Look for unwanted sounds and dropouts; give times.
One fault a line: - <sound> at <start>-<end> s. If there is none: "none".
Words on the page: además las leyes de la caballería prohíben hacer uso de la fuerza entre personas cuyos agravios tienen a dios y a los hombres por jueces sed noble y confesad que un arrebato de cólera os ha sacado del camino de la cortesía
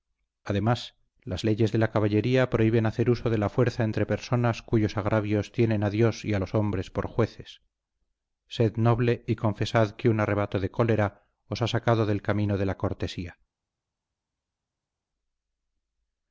none